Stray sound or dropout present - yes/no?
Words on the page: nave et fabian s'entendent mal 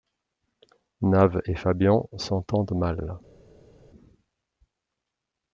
no